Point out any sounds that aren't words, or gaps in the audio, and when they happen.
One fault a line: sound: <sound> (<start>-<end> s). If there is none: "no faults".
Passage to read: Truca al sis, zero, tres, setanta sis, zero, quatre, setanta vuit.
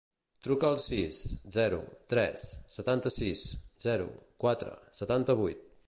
no faults